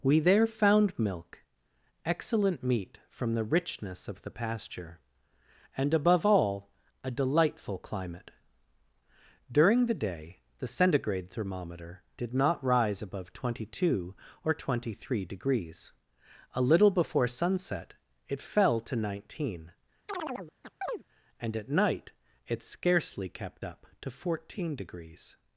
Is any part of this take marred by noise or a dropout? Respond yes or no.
yes